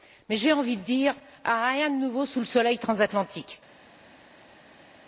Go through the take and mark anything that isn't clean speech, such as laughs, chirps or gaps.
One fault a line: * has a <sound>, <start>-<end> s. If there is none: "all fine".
all fine